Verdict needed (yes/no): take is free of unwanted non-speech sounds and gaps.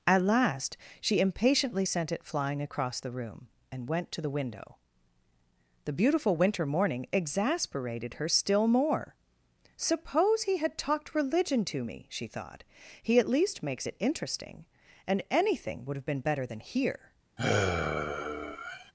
no